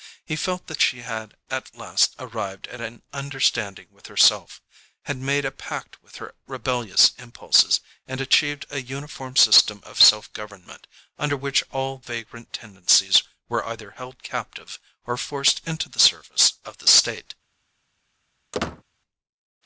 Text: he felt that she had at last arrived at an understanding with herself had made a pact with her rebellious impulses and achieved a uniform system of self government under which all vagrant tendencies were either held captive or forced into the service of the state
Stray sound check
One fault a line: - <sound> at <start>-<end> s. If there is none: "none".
- squeak at 18.5-18.8 s